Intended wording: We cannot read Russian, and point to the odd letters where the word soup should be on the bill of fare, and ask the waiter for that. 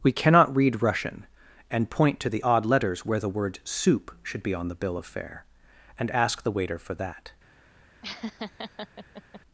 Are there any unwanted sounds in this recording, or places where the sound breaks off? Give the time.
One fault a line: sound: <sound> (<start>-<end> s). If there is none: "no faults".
sound: laugh (8.0-9.4 s)